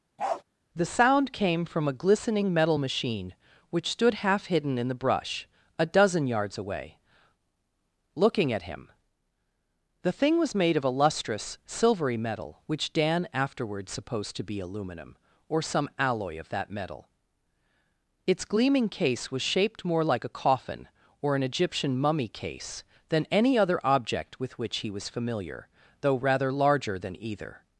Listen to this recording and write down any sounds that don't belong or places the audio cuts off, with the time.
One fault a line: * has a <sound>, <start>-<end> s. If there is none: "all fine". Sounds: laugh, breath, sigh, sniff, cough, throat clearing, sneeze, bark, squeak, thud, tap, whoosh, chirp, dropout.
* has a bark, 0.2-0.4 s